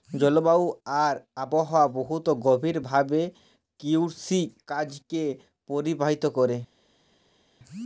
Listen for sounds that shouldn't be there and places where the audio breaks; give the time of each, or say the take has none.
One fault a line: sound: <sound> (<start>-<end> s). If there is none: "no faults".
no faults